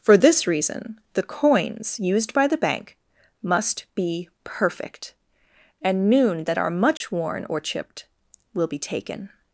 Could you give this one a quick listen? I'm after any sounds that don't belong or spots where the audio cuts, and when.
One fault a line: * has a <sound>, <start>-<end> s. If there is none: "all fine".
* has a dropout, 7.0-7.0 s